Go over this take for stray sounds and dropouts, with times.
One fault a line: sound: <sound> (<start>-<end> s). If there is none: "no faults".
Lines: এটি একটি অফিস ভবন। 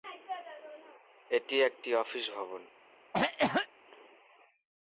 sound: cough (3.1-3.7 s)